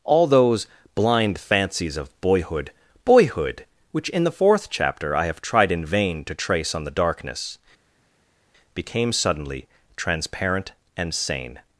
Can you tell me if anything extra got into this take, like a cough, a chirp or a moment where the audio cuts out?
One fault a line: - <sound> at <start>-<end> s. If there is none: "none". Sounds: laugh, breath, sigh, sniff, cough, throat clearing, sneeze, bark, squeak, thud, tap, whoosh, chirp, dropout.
none